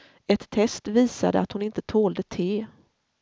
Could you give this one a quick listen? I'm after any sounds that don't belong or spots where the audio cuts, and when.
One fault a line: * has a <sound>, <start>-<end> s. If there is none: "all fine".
all fine